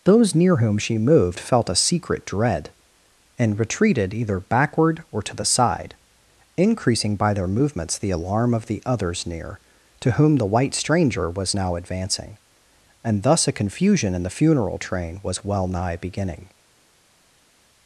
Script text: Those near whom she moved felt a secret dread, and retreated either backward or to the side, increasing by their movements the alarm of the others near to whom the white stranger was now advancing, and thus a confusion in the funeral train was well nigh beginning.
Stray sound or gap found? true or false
false